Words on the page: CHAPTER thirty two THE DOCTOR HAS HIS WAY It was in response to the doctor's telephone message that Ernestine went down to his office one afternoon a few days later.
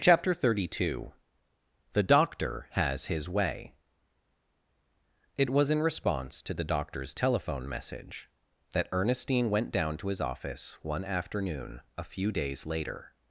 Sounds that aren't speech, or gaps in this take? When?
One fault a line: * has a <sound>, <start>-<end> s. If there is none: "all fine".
all fine